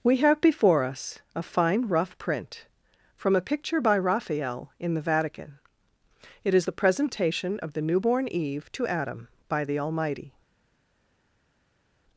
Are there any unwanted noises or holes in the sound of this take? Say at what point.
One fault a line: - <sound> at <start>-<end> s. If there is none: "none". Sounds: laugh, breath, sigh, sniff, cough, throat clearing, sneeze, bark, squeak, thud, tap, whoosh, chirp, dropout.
none